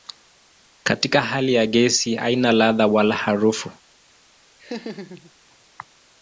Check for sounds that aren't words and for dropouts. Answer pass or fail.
fail